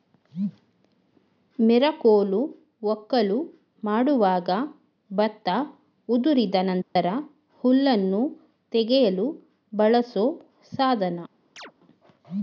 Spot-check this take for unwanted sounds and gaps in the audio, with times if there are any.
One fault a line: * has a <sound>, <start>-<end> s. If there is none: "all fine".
* has a dropout, 6.8-7.0 s
* has a chirp, 11.6-11.7 s